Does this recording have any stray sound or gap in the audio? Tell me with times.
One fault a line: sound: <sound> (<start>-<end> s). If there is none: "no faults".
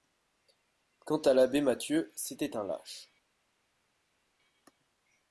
no faults